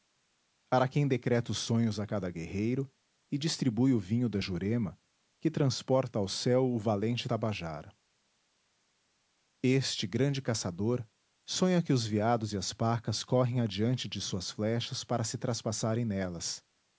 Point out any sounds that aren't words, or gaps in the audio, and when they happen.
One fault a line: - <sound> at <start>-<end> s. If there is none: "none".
none